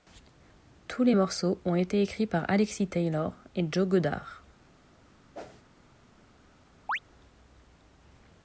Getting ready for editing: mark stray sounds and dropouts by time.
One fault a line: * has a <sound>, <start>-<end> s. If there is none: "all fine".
* has a whoosh, 5.3-5.6 s
* has a chirp, 6.9-7.0 s